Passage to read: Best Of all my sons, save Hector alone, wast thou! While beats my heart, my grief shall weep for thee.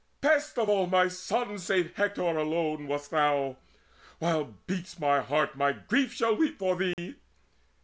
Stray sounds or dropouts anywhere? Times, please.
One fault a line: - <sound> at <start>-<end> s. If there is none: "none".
- dropout at 6.9-7.0 s